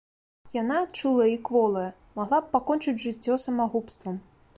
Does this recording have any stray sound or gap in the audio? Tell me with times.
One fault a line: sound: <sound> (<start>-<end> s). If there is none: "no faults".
no faults